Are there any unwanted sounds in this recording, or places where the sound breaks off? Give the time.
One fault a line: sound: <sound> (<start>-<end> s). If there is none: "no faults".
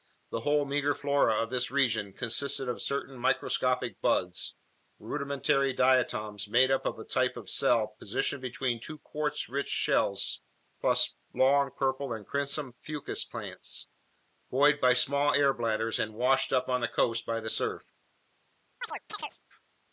sound: chirp (18.8-19.4 s)